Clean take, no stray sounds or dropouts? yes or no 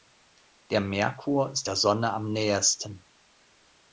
yes